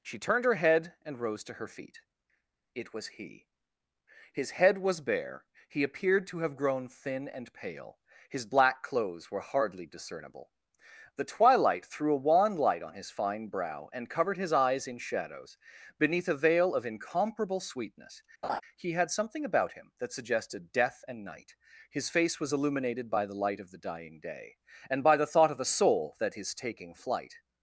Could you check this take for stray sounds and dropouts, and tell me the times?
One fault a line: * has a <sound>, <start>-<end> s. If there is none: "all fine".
* has a laugh, 18.4-18.6 s